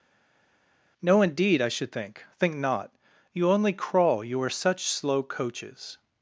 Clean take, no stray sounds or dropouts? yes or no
yes